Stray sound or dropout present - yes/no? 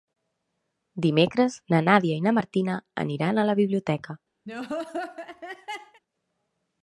yes